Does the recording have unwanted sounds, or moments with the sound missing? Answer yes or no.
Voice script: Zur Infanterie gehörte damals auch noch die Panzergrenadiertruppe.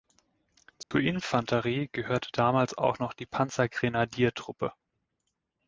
yes